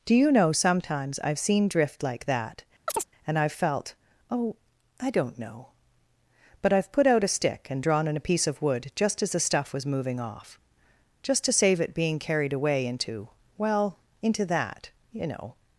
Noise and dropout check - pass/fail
fail